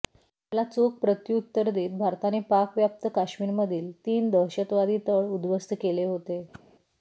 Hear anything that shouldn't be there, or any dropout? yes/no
yes